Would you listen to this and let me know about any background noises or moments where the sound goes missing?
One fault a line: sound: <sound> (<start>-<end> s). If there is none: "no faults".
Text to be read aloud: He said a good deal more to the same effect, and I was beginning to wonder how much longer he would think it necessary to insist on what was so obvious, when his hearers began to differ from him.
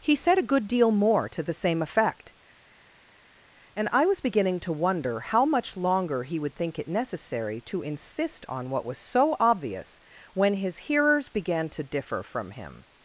no faults